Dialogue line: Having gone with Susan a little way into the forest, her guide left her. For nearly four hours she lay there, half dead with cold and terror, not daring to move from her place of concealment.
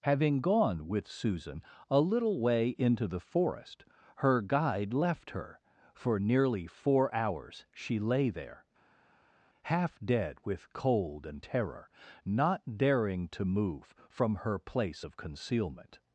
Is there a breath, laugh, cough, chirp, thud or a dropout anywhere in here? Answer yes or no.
no